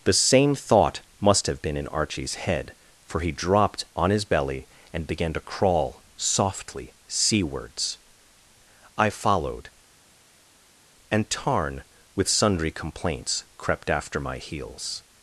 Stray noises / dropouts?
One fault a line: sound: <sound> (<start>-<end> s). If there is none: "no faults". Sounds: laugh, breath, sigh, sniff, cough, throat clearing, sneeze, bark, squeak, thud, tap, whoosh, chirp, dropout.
no faults